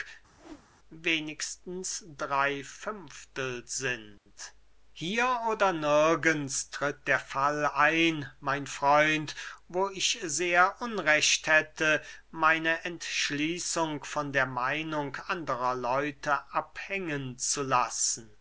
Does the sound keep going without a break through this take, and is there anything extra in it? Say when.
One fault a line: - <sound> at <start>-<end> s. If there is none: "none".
- whoosh at 0.4-0.7 s